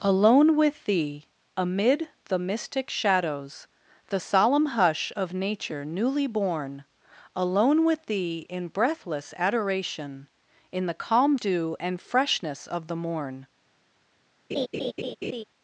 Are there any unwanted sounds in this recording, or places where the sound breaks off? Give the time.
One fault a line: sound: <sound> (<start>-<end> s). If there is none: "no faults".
sound: laugh (14.5-15.4 s)